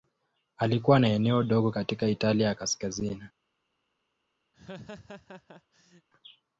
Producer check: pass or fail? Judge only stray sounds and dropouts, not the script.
fail